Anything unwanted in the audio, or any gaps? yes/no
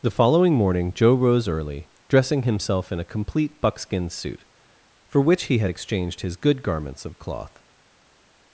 no